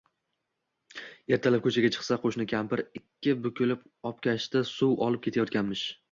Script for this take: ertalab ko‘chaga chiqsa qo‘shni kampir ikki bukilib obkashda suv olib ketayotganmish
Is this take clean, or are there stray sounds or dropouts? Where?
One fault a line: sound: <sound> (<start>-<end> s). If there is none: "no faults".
no faults